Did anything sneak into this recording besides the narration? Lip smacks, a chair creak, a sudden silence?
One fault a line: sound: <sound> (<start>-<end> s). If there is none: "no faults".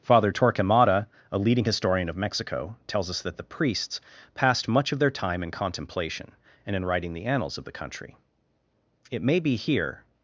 no faults